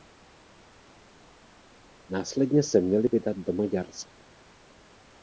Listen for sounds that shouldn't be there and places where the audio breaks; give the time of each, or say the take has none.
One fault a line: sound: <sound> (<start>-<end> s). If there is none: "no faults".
no faults